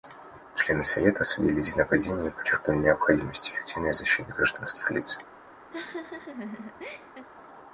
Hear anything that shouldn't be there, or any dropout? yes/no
yes